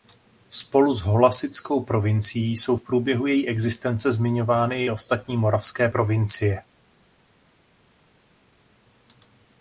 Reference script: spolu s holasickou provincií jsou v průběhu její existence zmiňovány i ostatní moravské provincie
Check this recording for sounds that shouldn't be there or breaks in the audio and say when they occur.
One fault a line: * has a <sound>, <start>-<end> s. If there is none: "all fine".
all fine